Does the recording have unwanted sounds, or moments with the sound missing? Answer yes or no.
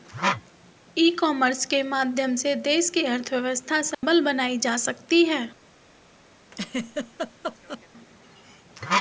yes